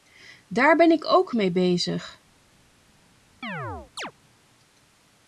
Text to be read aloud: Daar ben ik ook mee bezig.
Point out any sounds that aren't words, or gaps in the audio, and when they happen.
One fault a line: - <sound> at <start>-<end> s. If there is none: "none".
- chirp at 3.4-4.1 s